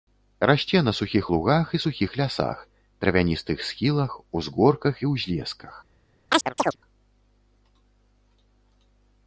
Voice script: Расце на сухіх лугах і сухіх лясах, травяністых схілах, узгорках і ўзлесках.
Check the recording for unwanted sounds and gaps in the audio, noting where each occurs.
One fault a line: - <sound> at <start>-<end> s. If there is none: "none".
- chirp at 6.3-6.8 s